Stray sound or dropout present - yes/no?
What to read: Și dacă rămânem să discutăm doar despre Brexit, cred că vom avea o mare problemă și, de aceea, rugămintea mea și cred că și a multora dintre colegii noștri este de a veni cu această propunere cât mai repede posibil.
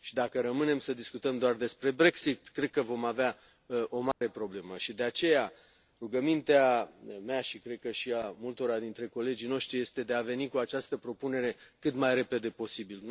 yes